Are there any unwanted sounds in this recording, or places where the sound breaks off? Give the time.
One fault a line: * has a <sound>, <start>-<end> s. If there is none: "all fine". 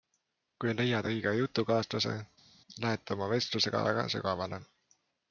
all fine